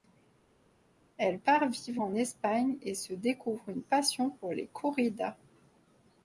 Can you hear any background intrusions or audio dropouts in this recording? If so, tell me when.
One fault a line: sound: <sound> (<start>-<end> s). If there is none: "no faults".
no faults